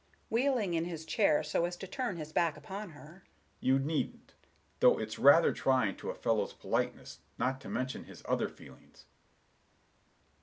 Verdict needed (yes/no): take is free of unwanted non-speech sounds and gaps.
yes